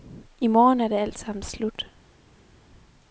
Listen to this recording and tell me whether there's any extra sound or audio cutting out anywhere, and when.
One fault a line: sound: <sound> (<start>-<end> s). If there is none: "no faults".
no faults